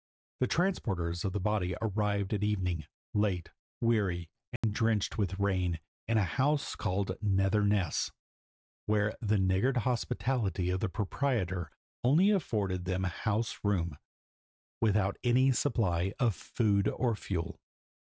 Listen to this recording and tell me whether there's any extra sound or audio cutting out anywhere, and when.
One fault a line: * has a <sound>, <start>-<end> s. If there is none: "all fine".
* has a dropout, 4.6-4.6 s